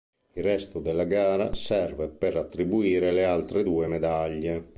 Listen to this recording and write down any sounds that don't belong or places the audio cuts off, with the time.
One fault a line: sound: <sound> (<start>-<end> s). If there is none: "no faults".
no faults